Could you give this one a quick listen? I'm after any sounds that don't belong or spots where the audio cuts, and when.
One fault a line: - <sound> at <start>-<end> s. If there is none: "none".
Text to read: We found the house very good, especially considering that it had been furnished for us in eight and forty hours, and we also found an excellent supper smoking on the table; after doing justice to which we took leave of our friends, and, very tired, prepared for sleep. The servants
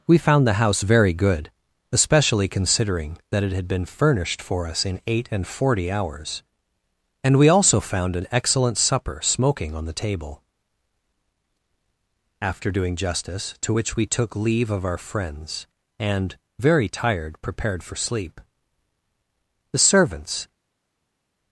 none